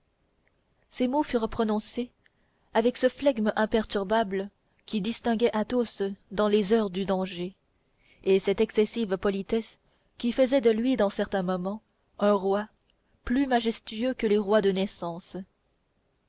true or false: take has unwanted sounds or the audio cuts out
false